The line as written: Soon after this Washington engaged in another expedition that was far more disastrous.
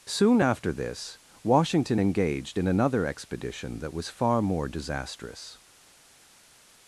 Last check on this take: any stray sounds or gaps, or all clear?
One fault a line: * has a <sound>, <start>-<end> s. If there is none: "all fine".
all fine